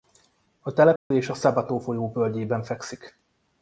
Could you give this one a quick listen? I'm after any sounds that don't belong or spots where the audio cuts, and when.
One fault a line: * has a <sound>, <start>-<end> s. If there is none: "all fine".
* has a dropout, 1.0-1.1 s